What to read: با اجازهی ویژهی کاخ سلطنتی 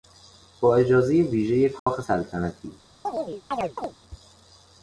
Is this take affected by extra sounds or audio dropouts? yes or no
yes